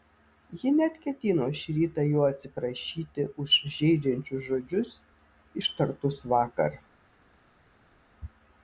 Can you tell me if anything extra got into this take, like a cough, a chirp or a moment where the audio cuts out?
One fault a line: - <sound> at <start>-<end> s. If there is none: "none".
none